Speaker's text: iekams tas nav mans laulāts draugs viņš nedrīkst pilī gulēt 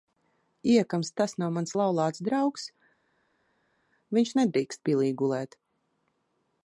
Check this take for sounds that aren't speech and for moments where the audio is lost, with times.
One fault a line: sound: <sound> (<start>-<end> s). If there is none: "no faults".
no faults